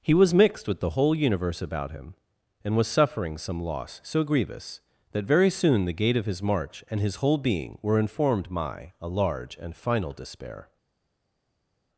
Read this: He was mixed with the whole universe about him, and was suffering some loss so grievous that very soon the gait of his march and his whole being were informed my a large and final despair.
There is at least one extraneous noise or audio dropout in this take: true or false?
false